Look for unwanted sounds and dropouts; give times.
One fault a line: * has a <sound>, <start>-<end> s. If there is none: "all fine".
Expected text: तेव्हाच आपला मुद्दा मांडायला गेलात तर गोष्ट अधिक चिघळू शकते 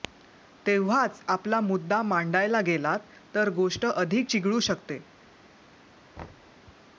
* has a thud, 6.2-6.5 s